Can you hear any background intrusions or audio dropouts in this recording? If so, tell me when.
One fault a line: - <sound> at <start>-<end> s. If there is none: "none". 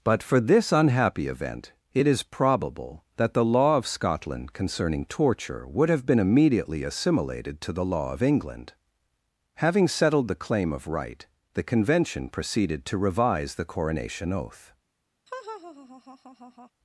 - laugh at 15.3-16.7 s